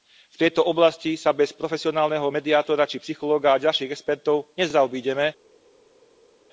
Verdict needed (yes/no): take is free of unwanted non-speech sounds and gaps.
yes